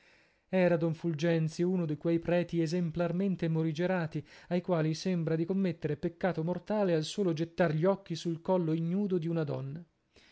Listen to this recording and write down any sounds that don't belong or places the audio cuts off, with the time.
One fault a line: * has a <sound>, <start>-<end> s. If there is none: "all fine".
all fine